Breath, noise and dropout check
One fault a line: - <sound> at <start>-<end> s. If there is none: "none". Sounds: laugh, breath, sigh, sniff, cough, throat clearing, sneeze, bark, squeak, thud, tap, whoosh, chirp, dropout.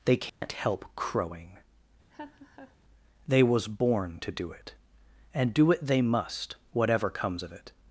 - dropout at 0.3-0.4 s
- laugh at 2.1-2.8 s